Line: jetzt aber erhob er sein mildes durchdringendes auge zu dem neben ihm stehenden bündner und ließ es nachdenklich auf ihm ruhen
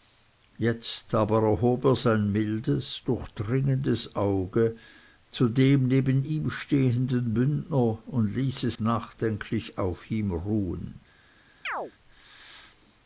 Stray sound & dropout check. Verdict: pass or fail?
fail